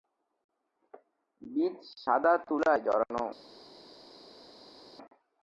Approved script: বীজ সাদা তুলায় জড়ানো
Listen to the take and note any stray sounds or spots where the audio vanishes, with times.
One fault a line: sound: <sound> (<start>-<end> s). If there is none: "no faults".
no faults